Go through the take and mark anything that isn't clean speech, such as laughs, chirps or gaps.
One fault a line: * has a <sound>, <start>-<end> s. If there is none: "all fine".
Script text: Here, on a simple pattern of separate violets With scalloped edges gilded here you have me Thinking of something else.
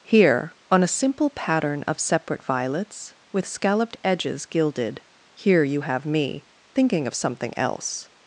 all fine